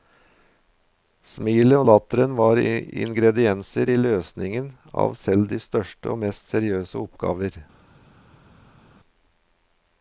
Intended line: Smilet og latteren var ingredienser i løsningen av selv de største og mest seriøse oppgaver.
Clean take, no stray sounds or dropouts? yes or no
yes